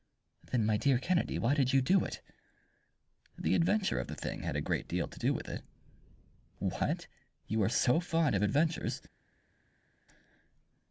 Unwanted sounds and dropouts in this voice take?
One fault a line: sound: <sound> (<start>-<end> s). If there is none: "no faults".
no faults